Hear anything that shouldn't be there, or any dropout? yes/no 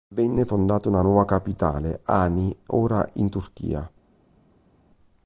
no